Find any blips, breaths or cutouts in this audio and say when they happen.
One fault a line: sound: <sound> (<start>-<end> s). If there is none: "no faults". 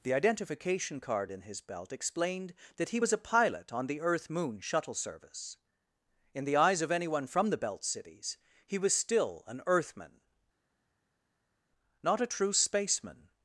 no faults